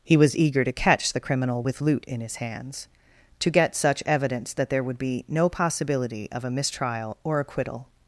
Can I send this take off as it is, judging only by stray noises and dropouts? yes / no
yes